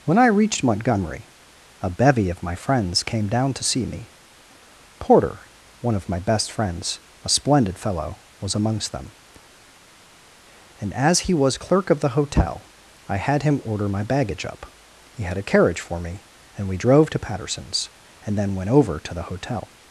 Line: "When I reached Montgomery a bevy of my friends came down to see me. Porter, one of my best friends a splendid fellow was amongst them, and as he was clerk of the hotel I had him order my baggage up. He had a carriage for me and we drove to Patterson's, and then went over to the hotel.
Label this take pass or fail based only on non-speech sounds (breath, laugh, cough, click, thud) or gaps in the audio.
pass